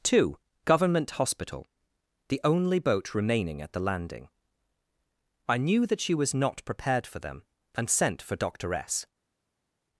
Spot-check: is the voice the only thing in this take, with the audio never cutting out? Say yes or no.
yes